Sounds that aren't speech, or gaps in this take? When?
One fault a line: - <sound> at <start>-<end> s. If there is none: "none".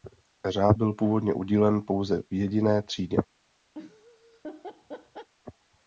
- laugh at 3.7-5.3 s